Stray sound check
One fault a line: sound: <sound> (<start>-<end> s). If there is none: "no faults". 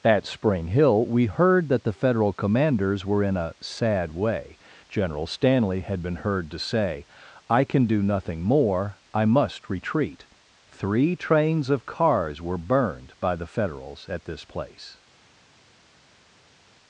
no faults